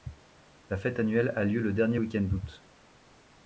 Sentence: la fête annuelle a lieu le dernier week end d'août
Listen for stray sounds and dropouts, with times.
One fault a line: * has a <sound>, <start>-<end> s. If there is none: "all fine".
all fine